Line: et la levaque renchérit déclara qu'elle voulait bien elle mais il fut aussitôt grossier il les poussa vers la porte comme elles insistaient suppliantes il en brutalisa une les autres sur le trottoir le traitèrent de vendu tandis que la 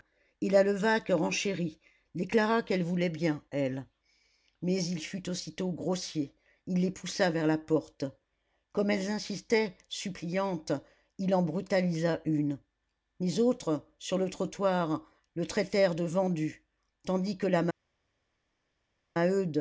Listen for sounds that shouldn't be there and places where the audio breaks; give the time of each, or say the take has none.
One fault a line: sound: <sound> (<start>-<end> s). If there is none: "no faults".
no faults